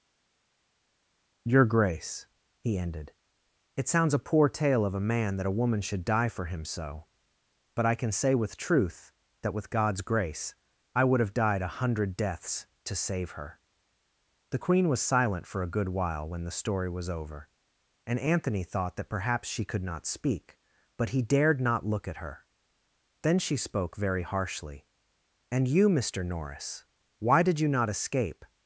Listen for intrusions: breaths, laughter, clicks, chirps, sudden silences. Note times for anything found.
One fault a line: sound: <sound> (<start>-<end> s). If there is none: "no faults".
no faults